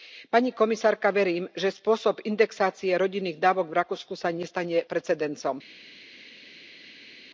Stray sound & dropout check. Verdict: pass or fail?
pass